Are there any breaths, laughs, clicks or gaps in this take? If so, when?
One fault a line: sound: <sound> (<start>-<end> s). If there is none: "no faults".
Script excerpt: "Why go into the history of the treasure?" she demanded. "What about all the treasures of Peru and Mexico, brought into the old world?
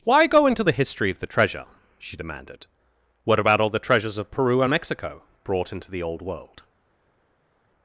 no faults